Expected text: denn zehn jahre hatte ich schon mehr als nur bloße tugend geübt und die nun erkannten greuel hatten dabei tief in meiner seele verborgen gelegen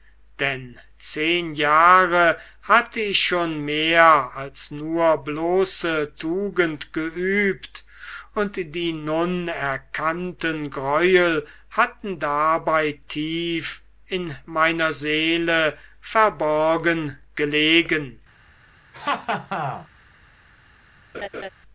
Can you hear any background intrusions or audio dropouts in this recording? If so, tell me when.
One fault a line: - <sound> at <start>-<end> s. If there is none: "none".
- laugh at 18.9-19.9 s
- laugh at 21.1-21.5 s